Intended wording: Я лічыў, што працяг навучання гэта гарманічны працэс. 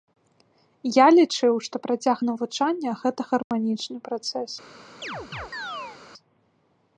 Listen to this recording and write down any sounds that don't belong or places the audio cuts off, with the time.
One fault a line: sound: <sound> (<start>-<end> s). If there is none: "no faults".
sound: dropout (3.4-3.5 s)
sound: chirp (5.0-6.0 s)